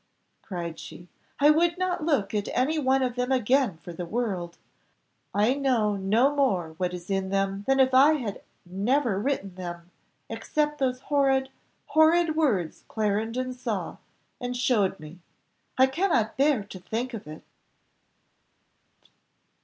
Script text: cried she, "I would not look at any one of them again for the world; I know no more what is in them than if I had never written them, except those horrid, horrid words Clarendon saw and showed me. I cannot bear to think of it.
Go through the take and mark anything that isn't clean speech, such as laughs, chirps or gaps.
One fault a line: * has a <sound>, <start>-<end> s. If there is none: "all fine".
all fine